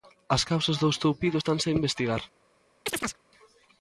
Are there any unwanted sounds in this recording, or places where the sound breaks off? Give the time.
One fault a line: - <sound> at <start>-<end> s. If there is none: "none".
- chirp at 2.9-3.2 s